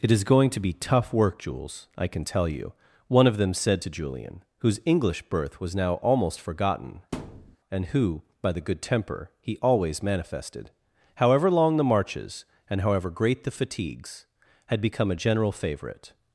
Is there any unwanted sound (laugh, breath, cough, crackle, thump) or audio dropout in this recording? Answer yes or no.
yes